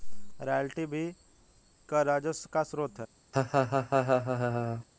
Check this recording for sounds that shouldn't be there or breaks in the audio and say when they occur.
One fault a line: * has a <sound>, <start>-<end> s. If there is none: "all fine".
* has a laugh, 3.3-4.9 s